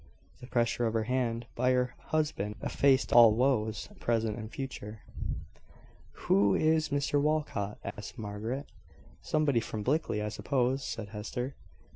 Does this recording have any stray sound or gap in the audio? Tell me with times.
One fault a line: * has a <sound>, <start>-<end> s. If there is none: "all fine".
* has a dropout, 7.9-8.0 s